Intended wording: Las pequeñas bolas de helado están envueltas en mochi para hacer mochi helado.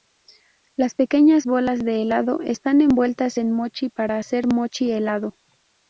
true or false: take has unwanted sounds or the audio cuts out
false